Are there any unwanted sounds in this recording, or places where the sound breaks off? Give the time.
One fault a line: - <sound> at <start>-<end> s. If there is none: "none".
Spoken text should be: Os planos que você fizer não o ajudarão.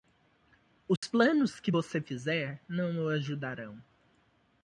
- dropout at 1.0-1.0 s